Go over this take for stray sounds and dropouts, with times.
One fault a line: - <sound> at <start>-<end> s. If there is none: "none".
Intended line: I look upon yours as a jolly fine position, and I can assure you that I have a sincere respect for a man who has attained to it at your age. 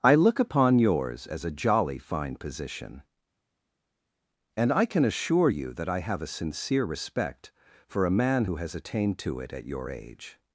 none